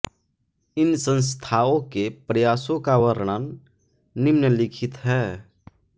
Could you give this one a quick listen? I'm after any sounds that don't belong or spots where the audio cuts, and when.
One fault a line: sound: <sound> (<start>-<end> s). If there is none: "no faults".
no faults